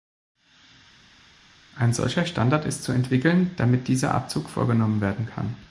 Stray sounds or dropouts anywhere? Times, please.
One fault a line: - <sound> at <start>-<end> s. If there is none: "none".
none